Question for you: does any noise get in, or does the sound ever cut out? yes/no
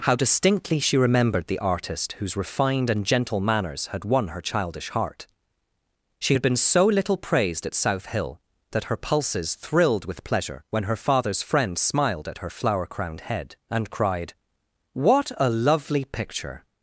no